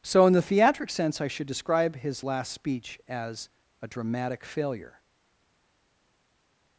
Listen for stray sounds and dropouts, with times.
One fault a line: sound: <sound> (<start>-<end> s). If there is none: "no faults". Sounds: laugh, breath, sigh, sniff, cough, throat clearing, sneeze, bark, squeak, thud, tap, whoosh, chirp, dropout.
no faults